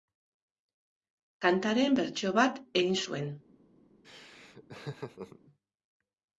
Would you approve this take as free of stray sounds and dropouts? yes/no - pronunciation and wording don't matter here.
no